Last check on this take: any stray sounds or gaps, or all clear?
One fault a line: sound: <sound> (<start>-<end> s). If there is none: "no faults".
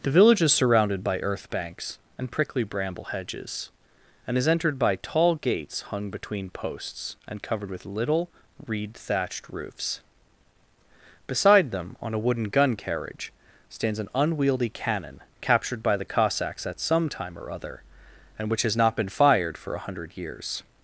no faults